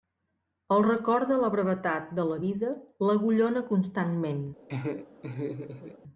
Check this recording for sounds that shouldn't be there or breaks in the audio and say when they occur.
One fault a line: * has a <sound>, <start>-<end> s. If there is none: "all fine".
* has a laugh, 4.7-6.0 s